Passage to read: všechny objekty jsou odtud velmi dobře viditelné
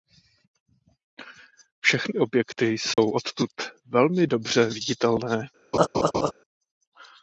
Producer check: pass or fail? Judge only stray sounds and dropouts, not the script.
fail